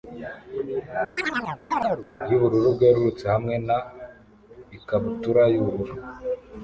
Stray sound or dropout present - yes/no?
yes